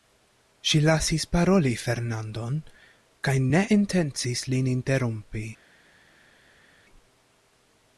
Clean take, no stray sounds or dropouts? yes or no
yes